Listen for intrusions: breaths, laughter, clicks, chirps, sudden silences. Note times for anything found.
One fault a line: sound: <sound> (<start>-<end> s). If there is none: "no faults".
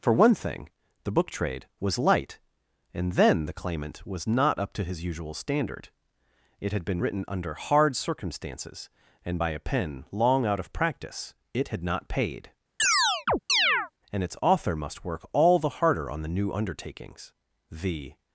sound: chirp (12.8-13.9 s)